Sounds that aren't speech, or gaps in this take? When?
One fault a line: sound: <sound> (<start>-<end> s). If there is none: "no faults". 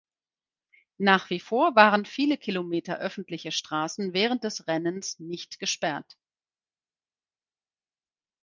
no faults